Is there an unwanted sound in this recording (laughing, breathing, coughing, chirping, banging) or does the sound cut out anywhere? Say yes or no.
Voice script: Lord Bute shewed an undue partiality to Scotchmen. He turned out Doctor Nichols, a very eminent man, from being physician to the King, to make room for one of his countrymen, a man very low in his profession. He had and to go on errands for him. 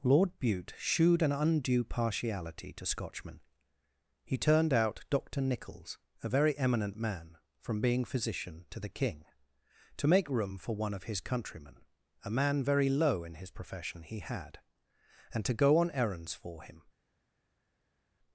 no